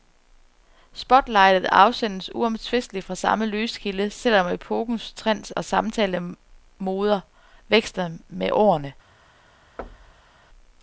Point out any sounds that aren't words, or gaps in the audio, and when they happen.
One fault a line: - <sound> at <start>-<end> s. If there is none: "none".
- thud at 9.8-10.4 s